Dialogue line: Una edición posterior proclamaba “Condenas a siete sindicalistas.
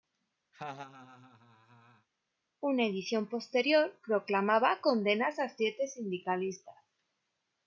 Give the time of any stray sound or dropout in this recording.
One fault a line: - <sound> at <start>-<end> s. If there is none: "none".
- laugh at 0.5-2.1 s